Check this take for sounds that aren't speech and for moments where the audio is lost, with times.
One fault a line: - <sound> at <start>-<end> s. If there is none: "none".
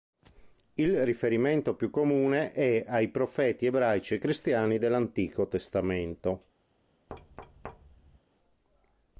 - thud at 7.1-8.2 s